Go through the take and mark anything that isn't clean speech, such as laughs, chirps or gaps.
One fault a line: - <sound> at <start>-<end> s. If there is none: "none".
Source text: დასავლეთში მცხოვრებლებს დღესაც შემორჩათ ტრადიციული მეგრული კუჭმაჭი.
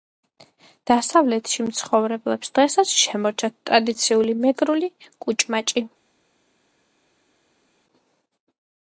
none